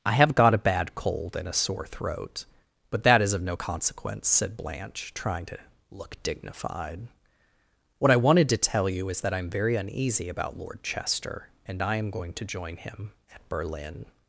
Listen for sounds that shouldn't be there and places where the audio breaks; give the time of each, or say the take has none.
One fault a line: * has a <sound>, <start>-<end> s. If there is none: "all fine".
all fine